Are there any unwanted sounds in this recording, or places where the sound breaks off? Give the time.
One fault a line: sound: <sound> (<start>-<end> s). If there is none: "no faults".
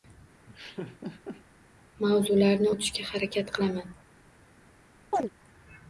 sound: laugh (0.5-1.4 s)
sound: chirp (5.1-5.3 s)